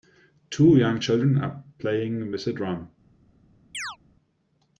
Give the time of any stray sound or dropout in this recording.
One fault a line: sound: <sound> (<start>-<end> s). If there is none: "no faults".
sound: chirp (3.7-4.0 s)